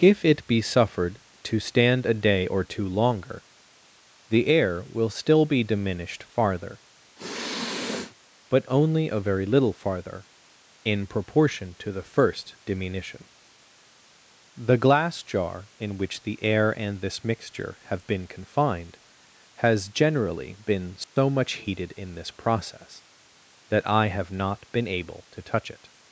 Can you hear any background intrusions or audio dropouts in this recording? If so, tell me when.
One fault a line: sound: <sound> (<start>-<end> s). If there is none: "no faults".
sound: sniff (7.2-8.1 s)
sound: dropout (21.0-21.2 s)